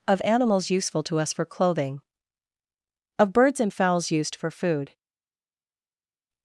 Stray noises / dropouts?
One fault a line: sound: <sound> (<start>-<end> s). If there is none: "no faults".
no faults